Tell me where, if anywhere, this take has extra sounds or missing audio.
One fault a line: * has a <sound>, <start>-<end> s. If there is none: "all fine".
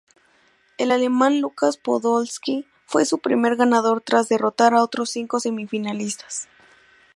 all fine